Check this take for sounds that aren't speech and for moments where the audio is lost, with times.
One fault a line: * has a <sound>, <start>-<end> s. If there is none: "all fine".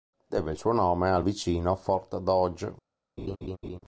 * has a laugh, 3.2-3.8 s